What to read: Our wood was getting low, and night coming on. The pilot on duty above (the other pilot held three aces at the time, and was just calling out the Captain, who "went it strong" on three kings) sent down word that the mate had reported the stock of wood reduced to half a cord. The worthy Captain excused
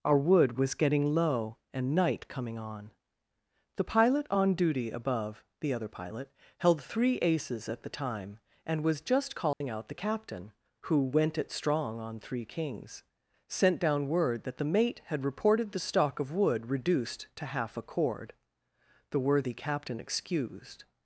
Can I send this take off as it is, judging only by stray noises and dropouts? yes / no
no